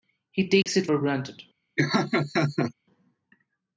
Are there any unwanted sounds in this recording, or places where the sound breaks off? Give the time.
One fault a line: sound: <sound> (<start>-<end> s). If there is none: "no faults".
sound: dropout (0.6-0.7 s)
sound: laugh (1.8-2.7 s)